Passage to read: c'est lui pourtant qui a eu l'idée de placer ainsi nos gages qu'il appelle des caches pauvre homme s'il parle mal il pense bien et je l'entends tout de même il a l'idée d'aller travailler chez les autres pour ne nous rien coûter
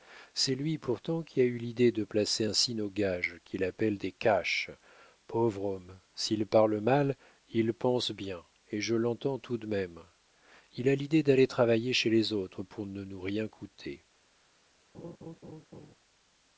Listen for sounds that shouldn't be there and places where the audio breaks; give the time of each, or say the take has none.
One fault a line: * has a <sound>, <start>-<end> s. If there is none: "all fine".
* has a laugh, 14.9-15.9 s